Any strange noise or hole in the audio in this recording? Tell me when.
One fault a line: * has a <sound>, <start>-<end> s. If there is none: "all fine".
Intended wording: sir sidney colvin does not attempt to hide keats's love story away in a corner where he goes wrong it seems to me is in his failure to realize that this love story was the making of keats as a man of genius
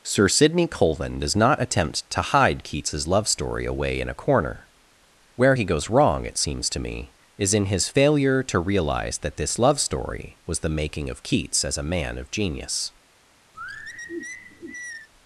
* has a sigh, 13.5-15.1 s